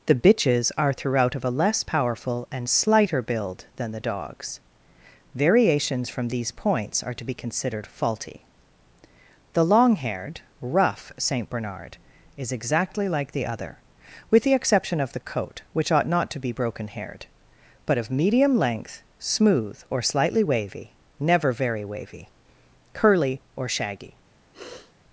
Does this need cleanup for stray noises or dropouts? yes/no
yes